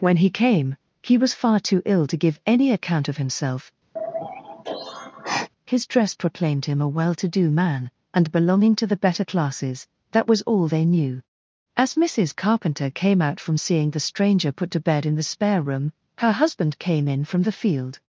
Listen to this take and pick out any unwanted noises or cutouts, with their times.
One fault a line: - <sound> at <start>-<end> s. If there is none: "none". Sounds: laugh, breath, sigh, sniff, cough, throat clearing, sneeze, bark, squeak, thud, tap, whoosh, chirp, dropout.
- sigh at 4.0-5.5 s